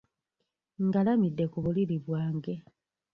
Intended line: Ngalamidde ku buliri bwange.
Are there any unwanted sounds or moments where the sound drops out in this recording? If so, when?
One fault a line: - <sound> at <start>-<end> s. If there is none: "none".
none